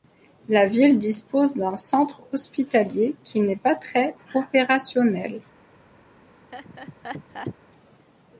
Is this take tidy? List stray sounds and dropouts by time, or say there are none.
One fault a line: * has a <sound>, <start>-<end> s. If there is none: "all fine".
* has a laugh, 6.5-7.6 s